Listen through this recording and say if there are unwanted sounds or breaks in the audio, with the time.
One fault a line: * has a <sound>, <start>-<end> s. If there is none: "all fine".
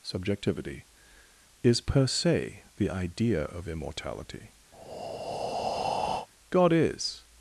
* has a breath, 4.7-6.3 s